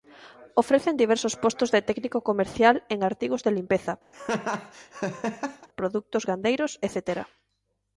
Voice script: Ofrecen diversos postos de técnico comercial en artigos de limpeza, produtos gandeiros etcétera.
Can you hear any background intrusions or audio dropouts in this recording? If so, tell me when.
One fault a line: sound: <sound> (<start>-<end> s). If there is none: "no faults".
sound: laugh (4.1-5.7 s)